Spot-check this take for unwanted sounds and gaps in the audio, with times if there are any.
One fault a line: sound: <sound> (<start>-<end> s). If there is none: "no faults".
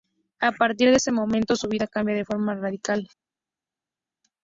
no faults